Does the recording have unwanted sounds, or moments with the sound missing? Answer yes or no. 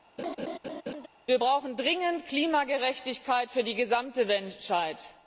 yes